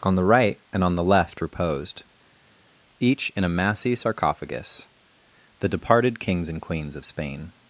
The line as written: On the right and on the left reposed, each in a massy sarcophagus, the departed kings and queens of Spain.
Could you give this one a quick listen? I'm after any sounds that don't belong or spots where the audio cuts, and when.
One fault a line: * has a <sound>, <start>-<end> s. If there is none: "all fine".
all fine